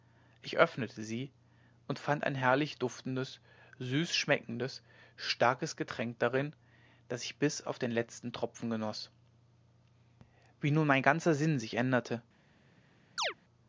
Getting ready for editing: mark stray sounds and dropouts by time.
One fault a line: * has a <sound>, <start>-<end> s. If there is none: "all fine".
* has a chirp, 13.2-13.3 s